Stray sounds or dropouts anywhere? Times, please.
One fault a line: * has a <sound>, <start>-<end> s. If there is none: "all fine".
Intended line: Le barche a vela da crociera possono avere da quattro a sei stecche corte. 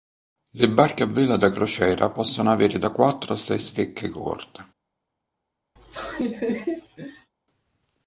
* has a laugh, 5.8-7.3 s